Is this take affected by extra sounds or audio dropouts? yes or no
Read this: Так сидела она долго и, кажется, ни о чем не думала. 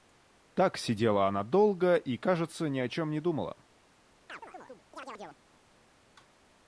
yes